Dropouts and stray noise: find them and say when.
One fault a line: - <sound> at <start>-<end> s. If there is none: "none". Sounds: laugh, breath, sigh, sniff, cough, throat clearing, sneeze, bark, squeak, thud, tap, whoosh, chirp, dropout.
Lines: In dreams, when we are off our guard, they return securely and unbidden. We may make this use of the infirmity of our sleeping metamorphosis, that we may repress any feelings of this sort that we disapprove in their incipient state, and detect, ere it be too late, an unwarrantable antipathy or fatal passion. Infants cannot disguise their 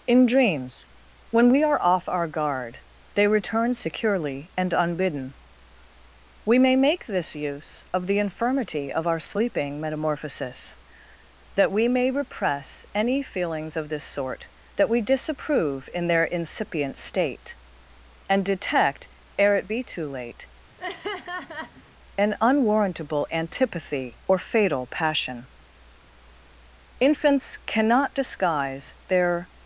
- laugh at 20.8-21.8 s